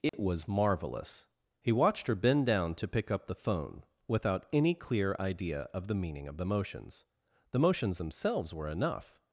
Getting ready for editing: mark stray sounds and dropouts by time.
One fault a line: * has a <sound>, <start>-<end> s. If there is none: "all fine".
* has a dropout, 0.1-0.1 s